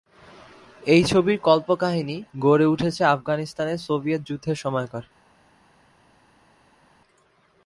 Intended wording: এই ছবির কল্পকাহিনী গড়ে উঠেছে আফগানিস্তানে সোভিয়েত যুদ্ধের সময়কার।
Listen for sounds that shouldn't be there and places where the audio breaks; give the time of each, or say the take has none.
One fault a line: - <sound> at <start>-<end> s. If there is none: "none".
none